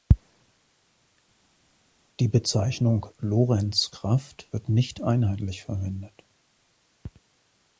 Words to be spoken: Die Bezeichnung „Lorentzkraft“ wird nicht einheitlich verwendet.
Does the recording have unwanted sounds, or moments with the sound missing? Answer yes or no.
no